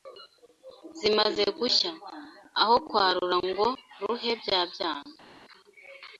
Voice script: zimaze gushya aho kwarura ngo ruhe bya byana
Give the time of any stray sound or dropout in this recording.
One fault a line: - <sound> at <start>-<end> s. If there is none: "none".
none